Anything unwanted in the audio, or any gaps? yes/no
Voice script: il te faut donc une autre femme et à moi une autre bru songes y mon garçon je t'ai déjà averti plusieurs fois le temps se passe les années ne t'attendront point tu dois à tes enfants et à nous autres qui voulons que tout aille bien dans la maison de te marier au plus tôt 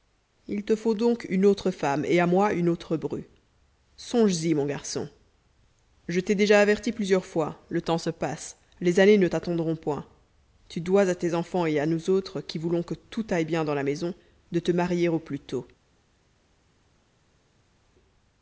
no